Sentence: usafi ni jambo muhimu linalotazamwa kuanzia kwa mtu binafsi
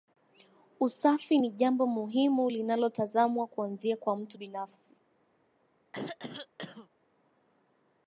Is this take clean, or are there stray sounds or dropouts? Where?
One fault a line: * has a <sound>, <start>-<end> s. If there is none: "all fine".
* has a throat clearing, 5.9-6.9 s